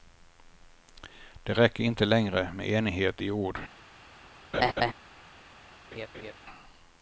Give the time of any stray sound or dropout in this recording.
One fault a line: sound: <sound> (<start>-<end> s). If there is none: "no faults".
sound: laugh (4.5-4.9 s)
sound: laugh (5.9-6.3 s)